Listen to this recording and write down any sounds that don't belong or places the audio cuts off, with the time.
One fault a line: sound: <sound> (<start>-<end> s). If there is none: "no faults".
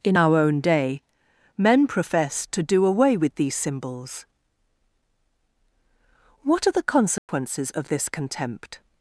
sound: dropout (7.2-7.3 s)